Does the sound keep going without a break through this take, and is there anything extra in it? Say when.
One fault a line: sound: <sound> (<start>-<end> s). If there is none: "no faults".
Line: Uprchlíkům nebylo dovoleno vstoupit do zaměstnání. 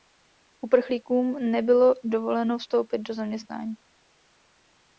no faults